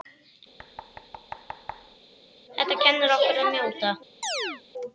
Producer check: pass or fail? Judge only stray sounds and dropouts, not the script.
fail